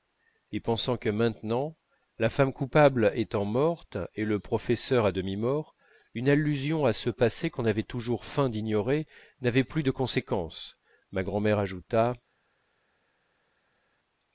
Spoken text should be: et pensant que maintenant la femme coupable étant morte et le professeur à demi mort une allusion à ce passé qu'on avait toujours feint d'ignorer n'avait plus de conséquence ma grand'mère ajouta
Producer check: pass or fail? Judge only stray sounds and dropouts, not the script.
pass